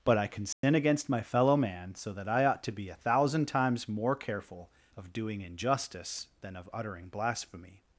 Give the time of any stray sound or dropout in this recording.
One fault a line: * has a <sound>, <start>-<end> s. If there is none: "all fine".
* has a dropout, 0.5-0.6 s